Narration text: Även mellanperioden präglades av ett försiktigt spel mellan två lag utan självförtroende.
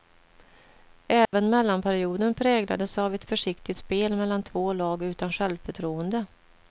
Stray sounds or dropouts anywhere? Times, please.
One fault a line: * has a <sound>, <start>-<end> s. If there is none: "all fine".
* has a dropout, 1.3-1.3 s